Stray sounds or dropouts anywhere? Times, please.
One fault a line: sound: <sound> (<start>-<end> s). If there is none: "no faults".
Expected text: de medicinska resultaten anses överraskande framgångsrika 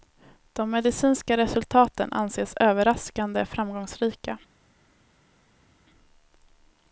no faults